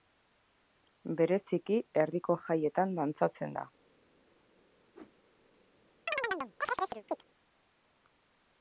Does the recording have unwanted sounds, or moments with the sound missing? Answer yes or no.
yes